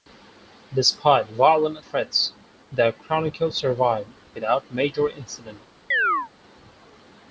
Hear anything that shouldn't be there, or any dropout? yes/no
yes